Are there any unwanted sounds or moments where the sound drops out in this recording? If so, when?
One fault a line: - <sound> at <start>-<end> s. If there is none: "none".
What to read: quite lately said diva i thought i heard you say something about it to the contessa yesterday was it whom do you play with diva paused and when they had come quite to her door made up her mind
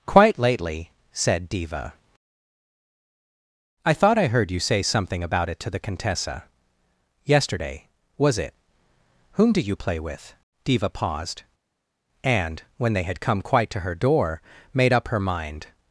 none